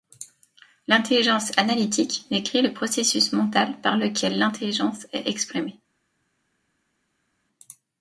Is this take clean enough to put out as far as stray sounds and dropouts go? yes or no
yes